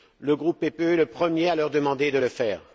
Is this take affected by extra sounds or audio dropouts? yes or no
no